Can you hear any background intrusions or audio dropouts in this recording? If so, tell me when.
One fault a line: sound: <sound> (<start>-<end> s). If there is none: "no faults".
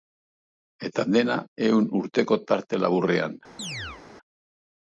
sound: chirp (3.6-4.0 s)